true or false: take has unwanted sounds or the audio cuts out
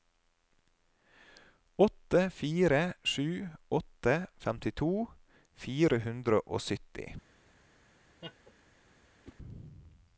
true